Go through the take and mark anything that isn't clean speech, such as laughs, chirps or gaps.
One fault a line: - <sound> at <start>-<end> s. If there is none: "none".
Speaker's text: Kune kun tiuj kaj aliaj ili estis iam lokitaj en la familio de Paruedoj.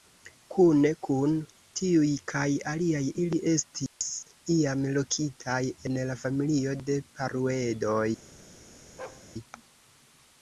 - dropout at 3.9-4.0 s
- bark at 9.0-9.3 s